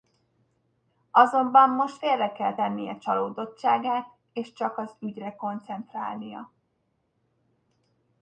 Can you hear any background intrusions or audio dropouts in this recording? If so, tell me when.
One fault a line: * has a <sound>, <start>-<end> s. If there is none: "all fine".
all fine